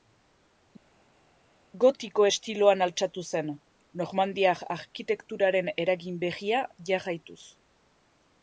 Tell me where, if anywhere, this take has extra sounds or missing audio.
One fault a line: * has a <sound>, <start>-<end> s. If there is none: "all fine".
all fine